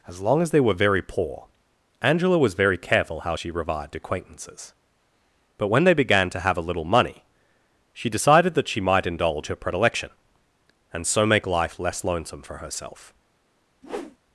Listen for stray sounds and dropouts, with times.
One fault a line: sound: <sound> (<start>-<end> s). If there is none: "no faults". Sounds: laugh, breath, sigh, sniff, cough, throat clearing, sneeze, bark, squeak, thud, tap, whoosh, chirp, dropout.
sound: whoosh (13.8-14.2 s)